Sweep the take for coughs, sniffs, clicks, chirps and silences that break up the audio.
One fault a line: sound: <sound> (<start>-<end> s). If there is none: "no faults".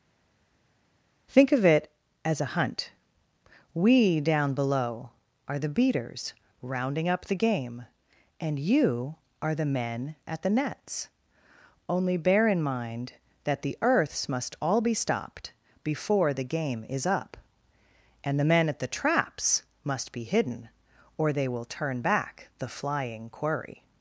no faults